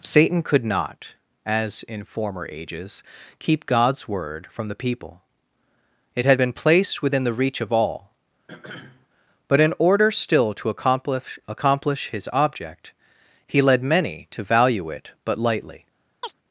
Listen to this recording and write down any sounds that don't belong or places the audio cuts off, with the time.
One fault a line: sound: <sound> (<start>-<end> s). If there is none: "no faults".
sound: throat clearing (8.5-9.1 s)
sound: chirp (16.2-16.3 s)